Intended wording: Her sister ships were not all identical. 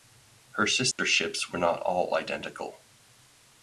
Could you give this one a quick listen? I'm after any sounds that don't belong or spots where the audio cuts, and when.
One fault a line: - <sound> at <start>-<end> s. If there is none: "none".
- dropout at 0.9-1.0 s